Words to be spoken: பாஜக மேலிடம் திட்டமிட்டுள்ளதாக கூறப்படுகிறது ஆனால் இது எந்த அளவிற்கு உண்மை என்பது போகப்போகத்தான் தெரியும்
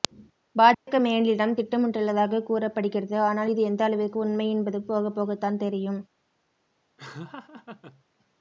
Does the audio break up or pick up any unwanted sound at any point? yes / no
yes